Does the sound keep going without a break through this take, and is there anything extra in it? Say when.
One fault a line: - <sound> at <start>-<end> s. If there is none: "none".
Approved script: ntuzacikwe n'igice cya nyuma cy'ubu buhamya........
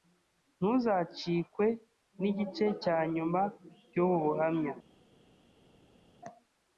none